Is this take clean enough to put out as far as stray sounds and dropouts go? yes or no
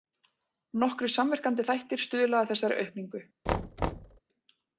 no